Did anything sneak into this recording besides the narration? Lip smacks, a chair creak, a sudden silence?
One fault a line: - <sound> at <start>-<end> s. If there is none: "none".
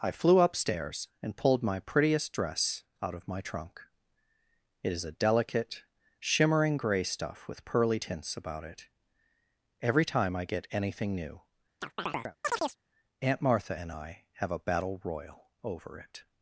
- chirp at 11.8-12.8 s